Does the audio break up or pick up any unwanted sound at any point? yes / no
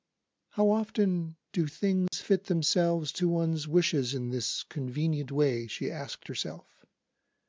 yes